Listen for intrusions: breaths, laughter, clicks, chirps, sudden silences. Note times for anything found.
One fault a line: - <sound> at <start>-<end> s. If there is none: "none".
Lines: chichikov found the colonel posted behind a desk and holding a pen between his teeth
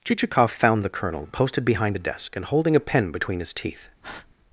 - breath at 4.0-4.3 s